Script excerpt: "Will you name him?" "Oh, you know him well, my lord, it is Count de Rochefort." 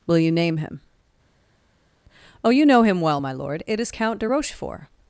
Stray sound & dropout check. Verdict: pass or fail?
pass